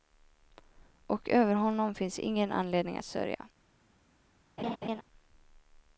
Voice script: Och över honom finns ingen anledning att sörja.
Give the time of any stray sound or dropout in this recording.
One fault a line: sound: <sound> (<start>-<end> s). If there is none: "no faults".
sound: laugh (4.6-5.0 s)